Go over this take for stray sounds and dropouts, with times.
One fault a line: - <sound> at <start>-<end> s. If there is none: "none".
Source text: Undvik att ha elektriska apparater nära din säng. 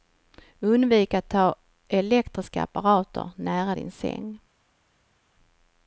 none